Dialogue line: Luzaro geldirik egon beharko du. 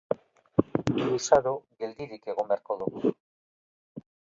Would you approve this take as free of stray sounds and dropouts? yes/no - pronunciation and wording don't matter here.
yes